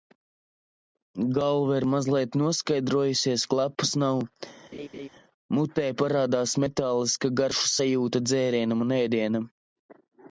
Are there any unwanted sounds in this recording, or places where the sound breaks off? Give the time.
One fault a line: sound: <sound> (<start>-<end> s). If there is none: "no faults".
sound: laugh (4.7-5.1 s)